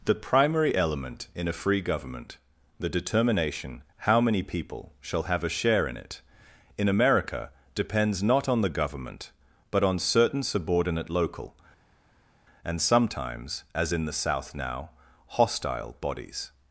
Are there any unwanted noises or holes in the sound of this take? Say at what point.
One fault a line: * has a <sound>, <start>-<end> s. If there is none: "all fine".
all fine